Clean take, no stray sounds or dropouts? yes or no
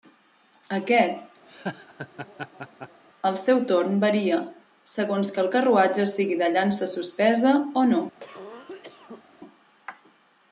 no